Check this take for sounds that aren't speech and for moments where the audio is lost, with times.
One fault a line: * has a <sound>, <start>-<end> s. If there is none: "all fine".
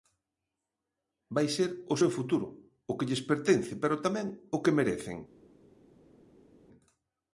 all fine